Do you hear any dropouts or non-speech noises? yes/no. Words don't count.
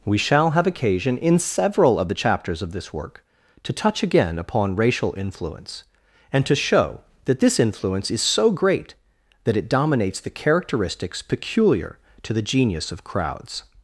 no